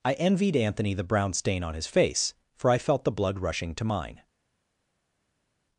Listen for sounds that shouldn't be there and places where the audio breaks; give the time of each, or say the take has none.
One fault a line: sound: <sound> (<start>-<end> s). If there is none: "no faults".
no faults